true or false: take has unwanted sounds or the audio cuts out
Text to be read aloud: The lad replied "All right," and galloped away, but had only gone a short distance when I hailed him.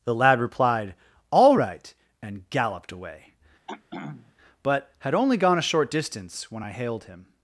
true